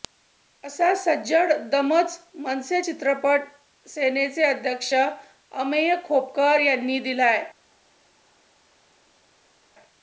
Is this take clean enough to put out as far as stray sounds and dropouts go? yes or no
yes